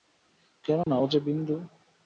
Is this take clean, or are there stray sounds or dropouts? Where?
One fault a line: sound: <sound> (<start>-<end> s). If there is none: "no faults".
sound: dropout (0.8-0.9 s)